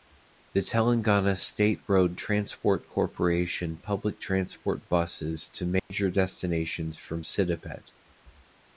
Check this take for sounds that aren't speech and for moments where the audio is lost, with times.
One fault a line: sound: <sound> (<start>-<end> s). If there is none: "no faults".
sound: dropout (5.8-5.9 s)